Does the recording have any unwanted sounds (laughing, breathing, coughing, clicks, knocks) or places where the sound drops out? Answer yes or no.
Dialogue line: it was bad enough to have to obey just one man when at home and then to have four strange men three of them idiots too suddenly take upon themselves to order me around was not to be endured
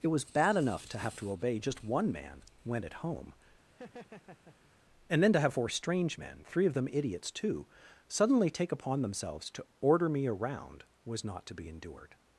yes